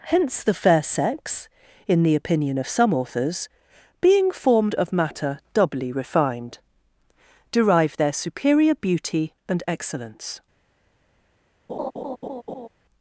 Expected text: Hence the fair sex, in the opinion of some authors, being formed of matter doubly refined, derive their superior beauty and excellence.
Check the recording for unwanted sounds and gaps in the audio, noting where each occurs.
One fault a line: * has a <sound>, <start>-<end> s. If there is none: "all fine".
* has a laugh, 11.7-12.7 s